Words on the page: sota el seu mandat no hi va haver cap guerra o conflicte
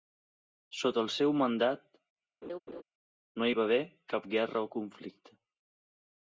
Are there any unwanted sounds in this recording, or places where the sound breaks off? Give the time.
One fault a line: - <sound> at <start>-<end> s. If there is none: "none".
- laugh at 2.4-2.8 s